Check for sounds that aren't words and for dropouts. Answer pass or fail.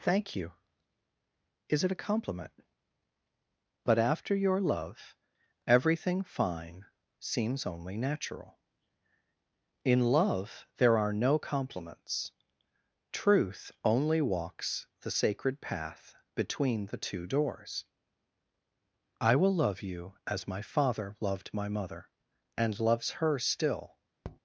fail